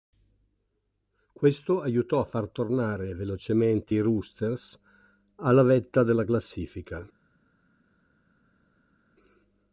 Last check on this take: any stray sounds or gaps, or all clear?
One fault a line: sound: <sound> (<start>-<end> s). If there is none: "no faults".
no faults